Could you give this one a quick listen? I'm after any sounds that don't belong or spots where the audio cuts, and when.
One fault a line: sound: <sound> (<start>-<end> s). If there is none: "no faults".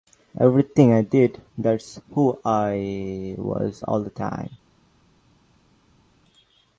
no faults